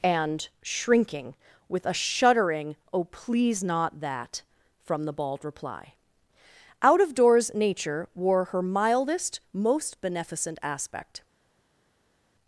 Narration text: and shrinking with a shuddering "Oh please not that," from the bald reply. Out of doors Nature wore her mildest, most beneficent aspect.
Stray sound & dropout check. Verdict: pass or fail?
pass